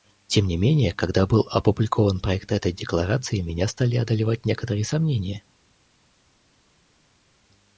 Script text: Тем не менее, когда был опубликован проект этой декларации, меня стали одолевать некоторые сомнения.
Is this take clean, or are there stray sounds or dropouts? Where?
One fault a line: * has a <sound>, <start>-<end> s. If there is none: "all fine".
all fine